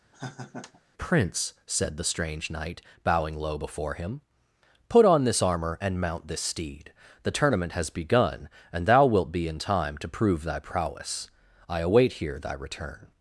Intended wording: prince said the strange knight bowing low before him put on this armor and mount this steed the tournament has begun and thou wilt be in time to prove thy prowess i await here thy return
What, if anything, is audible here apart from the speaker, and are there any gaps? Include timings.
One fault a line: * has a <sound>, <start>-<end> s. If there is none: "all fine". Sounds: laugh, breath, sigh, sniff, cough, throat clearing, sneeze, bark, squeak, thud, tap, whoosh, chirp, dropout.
* has a laugh, 0.1-0.8 s